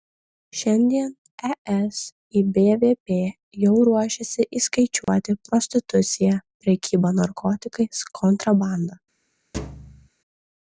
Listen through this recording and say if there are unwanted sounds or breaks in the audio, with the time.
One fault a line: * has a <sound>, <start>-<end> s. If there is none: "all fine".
* has a dropout, 5.0-5.1 s
* has a thud, 9.5-10.1 s